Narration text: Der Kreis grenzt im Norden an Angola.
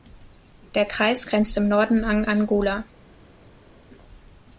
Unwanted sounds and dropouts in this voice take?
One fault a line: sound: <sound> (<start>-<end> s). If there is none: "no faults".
no faults